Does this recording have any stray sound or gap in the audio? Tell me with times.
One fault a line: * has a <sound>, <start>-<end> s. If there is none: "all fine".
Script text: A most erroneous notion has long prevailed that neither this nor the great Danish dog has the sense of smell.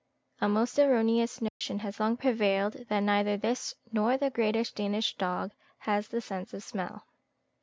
* has a dropout, 1.5-1.6 s